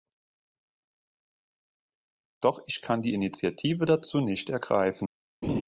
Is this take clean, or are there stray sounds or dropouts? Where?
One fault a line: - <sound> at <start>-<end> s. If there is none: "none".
- laugh at 5.4-5.6 s